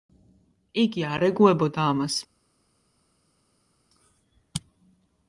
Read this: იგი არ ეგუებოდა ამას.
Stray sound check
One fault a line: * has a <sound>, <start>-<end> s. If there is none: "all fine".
all fine